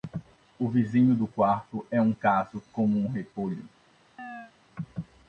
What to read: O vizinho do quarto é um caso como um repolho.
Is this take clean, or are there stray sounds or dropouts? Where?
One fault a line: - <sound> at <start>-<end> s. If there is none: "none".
- chirp at 4.2-4.5 s